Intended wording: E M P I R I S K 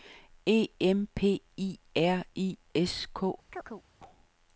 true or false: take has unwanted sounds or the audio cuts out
true